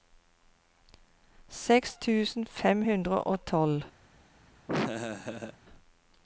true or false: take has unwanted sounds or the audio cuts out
true